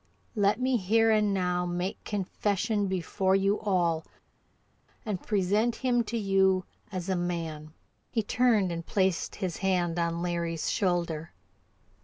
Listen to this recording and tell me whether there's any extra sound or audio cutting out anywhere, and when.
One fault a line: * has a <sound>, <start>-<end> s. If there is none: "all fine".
all fine